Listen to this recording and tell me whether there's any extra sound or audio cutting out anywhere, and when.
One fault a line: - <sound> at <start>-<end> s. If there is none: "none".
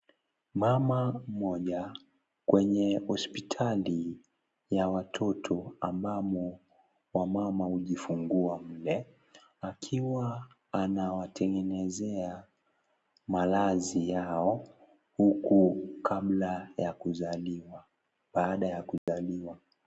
- dropout at 19.0-19.1 s